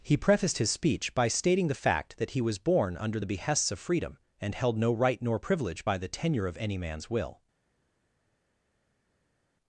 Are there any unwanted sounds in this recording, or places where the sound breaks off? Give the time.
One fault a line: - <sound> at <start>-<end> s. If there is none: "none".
none